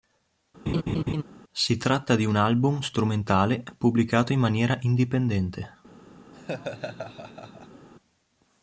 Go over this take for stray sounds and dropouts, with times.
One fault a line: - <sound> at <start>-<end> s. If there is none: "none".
- laugh at 0.7-1.2 s
- laugh at 6.3-7.9 s